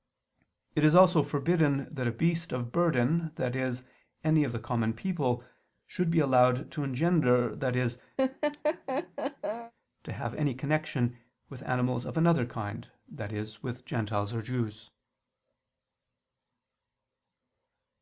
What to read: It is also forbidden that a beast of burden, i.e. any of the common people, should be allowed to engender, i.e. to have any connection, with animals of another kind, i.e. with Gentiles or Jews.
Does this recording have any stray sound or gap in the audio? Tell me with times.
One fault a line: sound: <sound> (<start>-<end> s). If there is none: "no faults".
sound: laugh (8.2-9.7 s)